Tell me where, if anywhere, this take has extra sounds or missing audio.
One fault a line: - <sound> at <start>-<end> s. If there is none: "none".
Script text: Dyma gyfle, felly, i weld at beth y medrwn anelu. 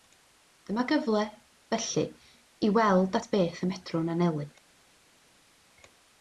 none